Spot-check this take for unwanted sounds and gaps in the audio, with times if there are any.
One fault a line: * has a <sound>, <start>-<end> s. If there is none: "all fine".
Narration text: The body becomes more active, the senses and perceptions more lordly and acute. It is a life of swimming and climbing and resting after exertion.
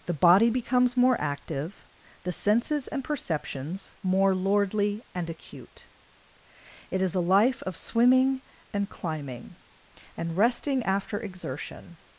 all fine